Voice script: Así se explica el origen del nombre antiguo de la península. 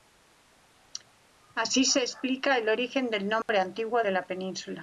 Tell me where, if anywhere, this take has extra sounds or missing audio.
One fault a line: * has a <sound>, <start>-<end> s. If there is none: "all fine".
* has a dropout, 3.4-3.5 s